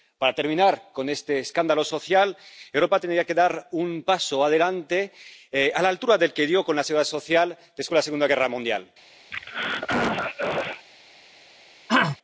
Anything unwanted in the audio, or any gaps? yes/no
yes